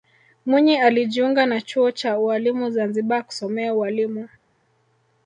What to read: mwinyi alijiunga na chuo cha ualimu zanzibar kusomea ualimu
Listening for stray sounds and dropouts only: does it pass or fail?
pass